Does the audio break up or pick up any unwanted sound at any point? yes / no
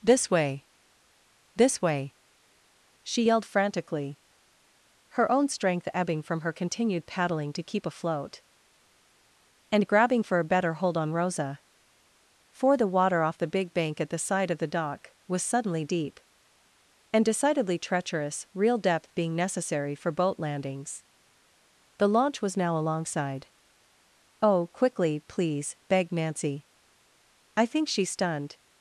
no